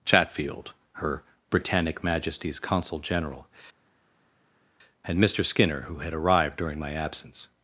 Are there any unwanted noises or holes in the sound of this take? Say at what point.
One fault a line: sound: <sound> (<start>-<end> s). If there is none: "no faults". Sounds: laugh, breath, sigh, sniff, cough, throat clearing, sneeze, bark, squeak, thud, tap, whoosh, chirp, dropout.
no faults